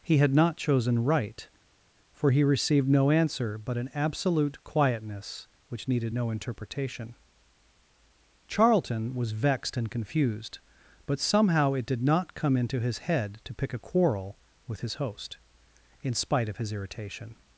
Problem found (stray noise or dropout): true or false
false